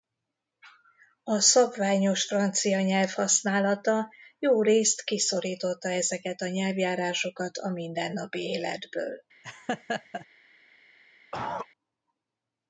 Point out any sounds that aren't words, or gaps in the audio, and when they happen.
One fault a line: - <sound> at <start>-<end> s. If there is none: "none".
- laugh at 9.4-10.3 s
- cough at 11.3-11.7 s